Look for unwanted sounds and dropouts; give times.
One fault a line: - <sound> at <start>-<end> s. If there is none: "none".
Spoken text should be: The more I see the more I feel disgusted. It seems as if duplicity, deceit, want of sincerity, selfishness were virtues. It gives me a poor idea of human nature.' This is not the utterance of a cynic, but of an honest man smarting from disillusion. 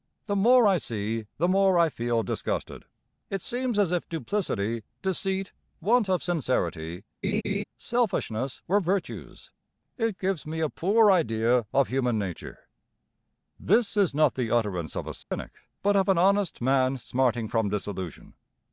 - laugh at 7.2-7.6 s
- dropout at 15.2-15.3 s